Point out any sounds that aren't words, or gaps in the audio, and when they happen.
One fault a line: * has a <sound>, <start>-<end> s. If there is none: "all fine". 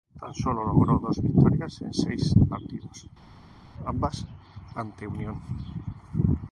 all fine